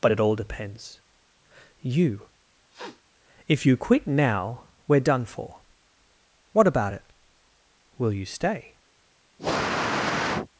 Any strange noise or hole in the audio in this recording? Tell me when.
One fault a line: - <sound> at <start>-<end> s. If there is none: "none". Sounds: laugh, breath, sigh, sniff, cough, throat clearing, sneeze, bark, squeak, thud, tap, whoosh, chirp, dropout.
- sniff at 2.7-3.0 s
- sniff at 9.4-10.5 s